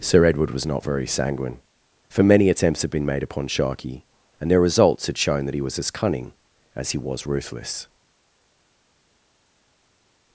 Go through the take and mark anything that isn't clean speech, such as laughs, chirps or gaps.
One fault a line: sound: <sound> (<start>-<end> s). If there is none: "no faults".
no faults